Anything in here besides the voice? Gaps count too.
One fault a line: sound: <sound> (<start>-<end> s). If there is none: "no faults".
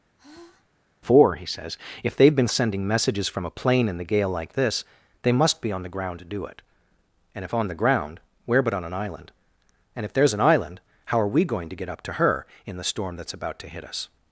sound: sigh (0.2-0.7 s)